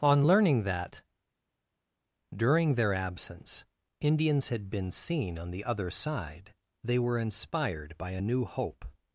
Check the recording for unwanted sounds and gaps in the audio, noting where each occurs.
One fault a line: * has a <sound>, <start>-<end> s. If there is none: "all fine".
all fine